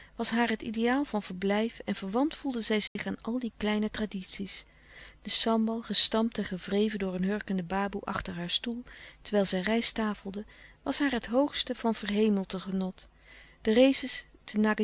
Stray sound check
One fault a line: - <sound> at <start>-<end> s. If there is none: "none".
- dropout at 2.9-3.0 s